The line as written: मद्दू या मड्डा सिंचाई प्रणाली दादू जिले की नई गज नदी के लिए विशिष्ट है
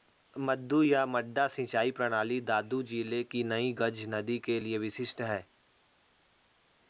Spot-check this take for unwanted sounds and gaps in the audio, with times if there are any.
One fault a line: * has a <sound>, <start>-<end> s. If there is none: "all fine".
all fine